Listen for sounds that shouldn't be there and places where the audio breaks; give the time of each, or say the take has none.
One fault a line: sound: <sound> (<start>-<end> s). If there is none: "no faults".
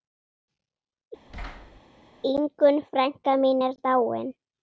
sound: thud (1.3-1.8 s)